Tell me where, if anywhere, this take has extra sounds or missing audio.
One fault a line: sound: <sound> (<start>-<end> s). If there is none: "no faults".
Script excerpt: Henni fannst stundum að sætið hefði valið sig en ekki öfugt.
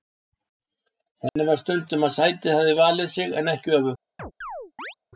sound: dropout (1.3-1.4 s)
sound: chirp (4.2-5.0 s)